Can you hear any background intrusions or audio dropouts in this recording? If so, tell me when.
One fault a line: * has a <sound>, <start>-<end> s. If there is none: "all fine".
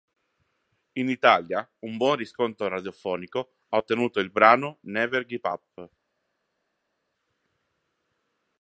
all fine